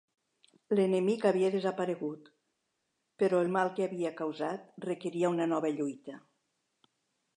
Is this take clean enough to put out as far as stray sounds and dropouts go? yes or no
yes